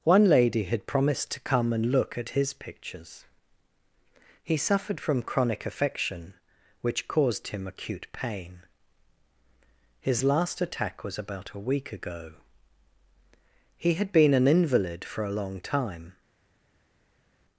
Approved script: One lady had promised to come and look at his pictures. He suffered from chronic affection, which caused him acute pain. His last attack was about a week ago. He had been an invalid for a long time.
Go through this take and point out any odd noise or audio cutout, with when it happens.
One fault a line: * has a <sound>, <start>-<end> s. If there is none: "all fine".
all fine